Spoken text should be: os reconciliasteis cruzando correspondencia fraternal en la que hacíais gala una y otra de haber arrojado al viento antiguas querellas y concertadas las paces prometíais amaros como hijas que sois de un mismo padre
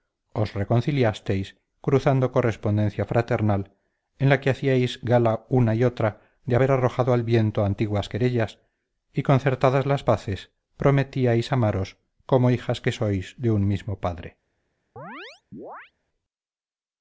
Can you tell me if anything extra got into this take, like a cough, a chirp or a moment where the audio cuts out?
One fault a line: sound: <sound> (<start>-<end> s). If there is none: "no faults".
sound: chirp (15.0-15.9 s)